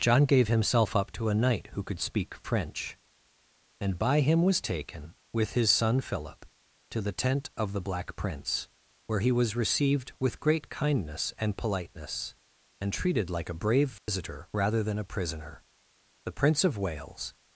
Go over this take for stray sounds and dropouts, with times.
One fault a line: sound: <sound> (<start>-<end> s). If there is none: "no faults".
sound: dropout (14.0-14.1 s)